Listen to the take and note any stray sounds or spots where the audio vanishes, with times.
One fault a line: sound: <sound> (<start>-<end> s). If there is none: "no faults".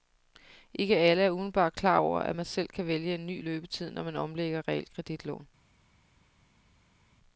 no faults